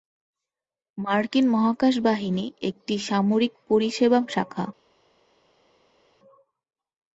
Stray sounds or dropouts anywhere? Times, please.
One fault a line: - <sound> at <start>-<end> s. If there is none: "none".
none